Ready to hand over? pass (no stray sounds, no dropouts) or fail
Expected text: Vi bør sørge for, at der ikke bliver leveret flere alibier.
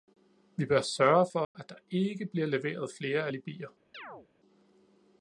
fail